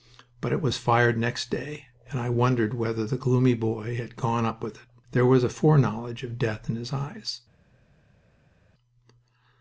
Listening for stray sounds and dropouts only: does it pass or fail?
pass